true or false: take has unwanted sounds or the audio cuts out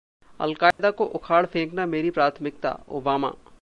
true